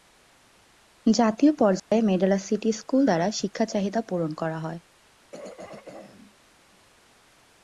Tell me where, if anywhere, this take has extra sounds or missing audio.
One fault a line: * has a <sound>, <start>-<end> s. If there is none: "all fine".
* has a dropout, 1.8-1.9 s
* has a throat clearing, 5.3-6.3 s